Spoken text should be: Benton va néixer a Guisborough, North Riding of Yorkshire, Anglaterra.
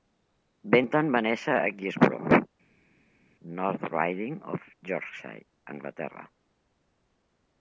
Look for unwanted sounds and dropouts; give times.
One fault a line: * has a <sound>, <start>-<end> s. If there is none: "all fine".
all fine